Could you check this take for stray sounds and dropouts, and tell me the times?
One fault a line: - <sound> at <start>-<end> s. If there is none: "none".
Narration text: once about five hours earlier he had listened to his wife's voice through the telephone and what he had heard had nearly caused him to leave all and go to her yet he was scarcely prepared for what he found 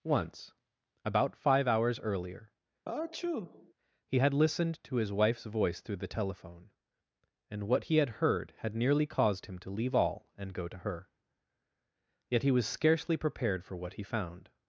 - sneeze at 2.9-3.7 s